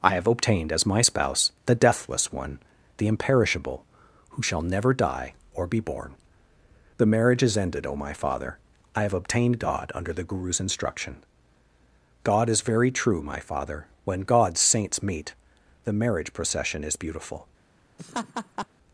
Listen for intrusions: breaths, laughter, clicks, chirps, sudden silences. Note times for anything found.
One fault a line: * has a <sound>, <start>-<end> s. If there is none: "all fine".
* has a laugh, 18.0-18.7 s